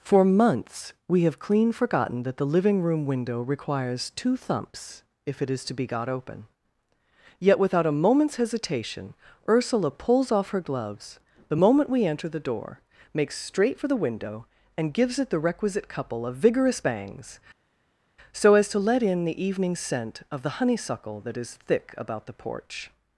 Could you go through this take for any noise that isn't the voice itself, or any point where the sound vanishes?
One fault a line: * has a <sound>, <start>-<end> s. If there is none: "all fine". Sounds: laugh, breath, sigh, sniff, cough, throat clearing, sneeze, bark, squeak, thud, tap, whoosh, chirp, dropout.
all fine